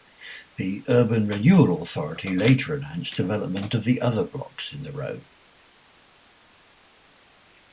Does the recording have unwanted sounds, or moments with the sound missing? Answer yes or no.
no